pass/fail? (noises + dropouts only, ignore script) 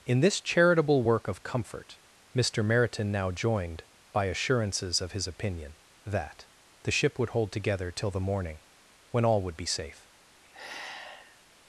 fail